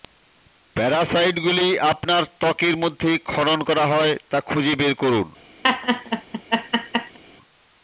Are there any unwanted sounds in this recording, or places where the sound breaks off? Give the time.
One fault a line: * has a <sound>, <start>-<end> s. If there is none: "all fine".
* has a laugh, 5.6-7.2 s